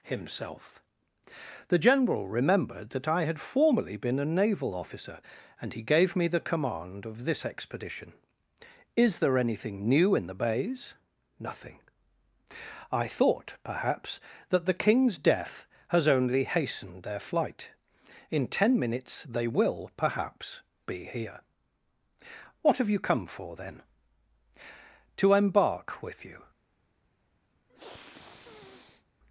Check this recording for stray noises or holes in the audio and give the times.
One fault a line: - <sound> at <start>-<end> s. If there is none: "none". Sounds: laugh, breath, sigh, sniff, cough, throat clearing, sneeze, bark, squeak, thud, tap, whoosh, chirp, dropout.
- sniff at 27.7-29.1 s